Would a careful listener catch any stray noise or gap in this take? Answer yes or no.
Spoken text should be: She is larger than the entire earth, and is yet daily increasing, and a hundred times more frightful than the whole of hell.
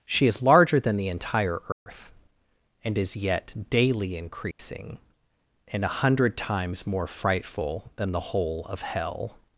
yes